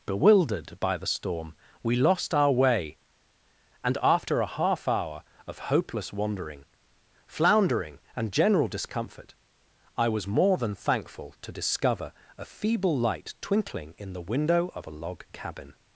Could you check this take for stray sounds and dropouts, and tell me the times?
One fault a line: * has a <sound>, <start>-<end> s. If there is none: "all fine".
all fine